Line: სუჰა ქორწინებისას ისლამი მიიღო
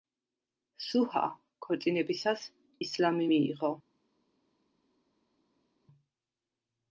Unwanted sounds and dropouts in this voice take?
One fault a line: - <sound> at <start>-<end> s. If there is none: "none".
none